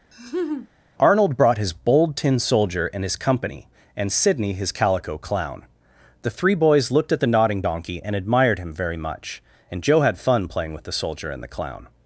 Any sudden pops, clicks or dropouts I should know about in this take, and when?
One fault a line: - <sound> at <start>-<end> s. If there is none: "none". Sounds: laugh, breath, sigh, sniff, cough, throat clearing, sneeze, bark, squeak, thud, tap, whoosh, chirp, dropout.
- laugh at 0.1-0.7 s